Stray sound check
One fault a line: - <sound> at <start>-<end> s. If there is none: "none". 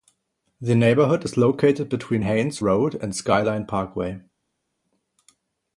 none